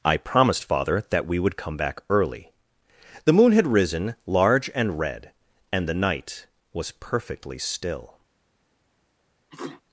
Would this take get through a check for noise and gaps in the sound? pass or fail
fail